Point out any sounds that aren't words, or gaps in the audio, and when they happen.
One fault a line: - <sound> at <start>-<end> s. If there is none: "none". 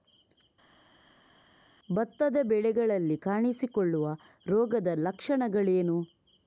none